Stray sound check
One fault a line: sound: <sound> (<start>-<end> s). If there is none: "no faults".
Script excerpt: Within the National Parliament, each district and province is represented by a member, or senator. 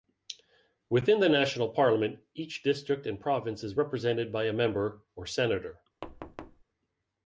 sound: thud (6.0-6.6 s)